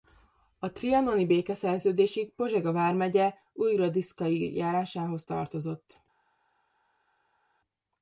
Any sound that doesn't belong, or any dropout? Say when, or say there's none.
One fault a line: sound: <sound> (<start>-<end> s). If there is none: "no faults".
no faults